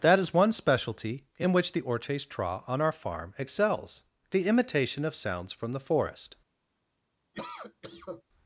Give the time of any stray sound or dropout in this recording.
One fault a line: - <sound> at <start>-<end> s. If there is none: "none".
- cough at 7.3-8.2 s